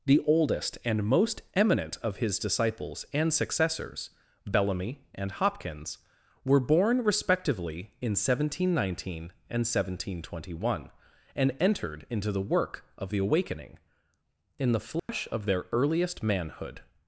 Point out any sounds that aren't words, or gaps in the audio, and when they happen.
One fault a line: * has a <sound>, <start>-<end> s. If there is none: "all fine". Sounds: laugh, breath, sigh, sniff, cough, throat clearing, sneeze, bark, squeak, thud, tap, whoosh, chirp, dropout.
* has a dropout, 15.0-15.1 s